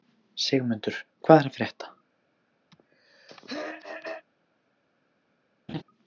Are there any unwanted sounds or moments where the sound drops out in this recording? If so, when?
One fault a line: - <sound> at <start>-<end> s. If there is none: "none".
- throat clearing at 2.7-4.3 s
- laugh at 5.7-5.8 s